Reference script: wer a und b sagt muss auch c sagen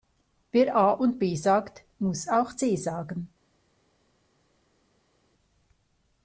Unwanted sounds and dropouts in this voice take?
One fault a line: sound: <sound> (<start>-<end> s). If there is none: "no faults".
no faults